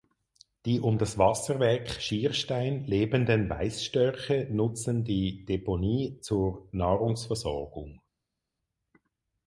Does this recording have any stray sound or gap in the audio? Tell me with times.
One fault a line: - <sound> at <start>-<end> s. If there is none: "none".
none